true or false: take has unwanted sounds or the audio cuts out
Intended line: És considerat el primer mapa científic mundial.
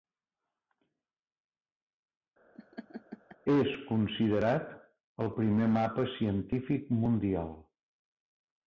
true